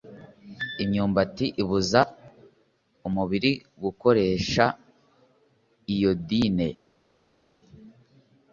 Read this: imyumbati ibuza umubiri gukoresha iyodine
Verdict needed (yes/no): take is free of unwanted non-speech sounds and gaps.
yes